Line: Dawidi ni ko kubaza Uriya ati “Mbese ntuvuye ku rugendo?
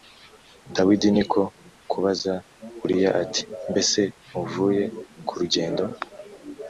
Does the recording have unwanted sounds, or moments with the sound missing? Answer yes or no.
no